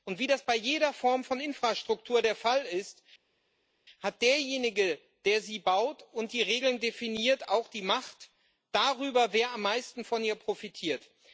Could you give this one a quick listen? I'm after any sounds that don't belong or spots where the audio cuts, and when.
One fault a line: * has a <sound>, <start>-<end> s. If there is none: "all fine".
all fine